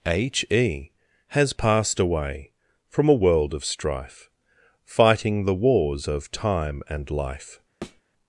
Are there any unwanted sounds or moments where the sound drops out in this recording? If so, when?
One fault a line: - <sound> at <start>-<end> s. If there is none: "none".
- thud at 7.8-8.0 s